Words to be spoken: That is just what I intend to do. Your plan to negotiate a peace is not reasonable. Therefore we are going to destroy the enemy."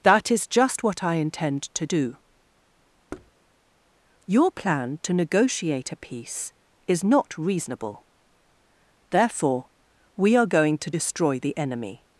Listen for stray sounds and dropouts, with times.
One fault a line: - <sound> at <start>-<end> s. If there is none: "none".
- thud at 3.1-3.3 s